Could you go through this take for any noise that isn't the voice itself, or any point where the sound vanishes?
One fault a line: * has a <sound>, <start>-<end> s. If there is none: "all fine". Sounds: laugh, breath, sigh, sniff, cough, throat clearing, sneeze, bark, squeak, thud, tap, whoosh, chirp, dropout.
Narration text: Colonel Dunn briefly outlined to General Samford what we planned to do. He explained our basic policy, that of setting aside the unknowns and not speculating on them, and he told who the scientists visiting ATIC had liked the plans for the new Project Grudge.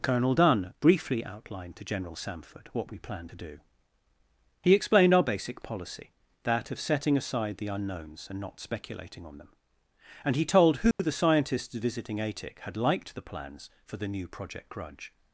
* has a dropout, 10.9-11.0 s